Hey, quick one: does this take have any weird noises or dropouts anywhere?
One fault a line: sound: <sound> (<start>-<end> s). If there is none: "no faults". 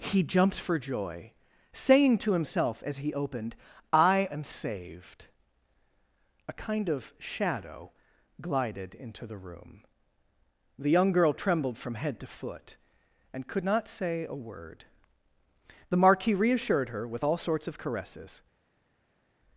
no faults